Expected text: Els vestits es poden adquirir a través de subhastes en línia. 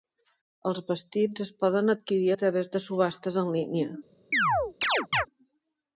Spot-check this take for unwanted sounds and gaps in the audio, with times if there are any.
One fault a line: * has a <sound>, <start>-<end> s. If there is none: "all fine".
* has a chirp, 4.3-5.3 s